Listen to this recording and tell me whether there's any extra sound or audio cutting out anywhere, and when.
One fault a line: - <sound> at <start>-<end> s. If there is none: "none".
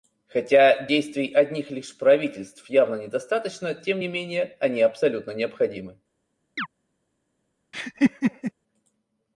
- chirp at 6.6-6.7 s
- laugh at 7.7-8.5 s